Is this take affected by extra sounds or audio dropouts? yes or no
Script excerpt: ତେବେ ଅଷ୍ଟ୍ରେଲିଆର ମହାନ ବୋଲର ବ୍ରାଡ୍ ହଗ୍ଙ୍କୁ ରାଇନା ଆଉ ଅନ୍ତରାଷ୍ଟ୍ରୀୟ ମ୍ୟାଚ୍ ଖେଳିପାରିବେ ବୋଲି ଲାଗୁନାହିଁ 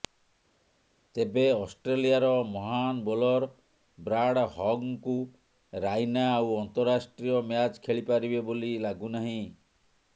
no